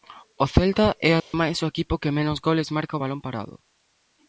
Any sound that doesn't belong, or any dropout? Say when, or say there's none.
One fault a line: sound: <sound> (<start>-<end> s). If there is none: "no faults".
sound: dropout (1.2-1.3 s)